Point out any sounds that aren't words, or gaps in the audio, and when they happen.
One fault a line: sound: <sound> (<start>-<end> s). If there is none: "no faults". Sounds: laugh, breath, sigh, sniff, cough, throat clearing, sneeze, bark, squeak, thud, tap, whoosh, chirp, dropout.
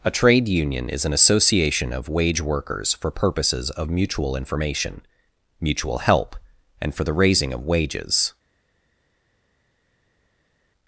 no faults